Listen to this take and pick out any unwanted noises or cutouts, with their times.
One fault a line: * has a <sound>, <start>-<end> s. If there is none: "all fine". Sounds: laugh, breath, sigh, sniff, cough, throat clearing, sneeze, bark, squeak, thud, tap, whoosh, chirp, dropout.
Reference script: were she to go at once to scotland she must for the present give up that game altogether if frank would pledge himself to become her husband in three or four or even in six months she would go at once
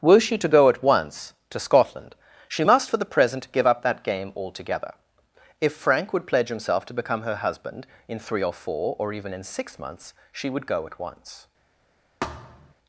* has a thud, 12.2-12.7 s